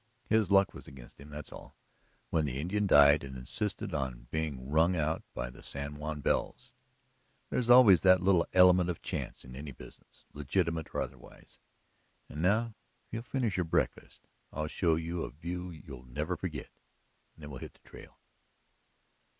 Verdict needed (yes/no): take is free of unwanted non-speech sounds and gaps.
yes